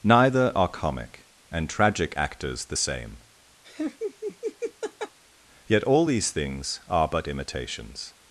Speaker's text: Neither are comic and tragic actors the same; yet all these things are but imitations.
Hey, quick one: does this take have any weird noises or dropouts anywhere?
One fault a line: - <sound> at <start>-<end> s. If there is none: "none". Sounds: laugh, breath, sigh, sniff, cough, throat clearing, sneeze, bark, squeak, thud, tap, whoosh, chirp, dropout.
- laugh at 3.6-5.2 s